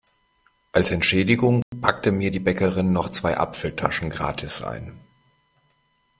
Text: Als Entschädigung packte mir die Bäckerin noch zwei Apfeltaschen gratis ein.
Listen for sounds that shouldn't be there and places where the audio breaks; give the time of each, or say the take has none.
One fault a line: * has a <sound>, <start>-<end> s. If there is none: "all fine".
* has a dropout, 1.6-1.7 s